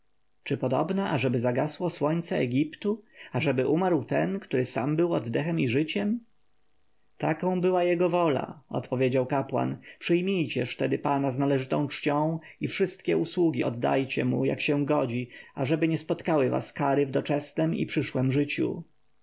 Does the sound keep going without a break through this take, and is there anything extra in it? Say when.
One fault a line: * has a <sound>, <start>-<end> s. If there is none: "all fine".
all fine